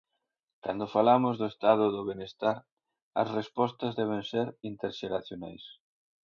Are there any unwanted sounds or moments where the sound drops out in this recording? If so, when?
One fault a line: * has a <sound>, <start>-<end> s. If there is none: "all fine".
all fine